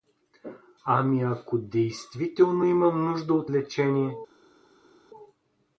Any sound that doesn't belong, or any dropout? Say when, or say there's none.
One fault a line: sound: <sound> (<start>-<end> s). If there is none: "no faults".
no faults